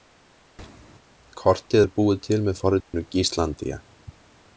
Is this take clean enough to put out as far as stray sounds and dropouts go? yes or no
no